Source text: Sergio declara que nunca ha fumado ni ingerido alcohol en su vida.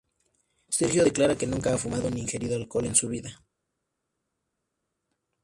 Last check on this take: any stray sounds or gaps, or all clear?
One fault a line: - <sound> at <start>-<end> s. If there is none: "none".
none